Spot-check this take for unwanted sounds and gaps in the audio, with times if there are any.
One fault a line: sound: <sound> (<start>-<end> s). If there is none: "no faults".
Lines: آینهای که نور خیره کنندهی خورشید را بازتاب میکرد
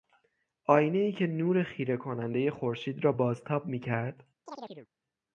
sound: chirp (4.5-4.9 s)